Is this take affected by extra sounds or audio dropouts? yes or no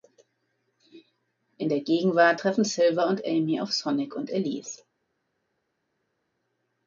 no